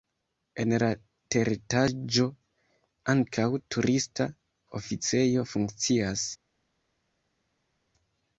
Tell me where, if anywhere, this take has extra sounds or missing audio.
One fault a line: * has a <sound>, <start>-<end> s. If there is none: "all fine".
all fine